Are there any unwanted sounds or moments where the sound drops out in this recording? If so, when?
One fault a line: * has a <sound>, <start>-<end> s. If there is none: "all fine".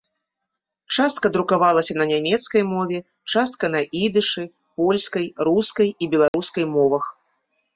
* has a dropout, 6.3-6.3 s